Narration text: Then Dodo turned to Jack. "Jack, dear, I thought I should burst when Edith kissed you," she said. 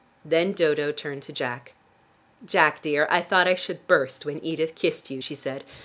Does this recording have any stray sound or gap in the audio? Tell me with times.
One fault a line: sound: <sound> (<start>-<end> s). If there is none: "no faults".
no faults